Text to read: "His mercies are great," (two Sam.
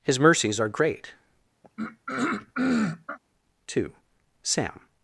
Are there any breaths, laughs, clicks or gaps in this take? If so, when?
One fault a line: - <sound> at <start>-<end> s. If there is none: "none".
- throat clearing at 1.6-3.2 s